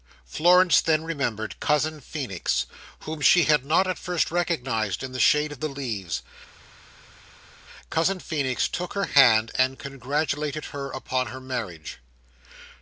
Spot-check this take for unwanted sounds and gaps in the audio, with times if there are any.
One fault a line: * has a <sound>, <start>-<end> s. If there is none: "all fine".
all fine